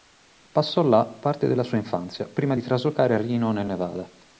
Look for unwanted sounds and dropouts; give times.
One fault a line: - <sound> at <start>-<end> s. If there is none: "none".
none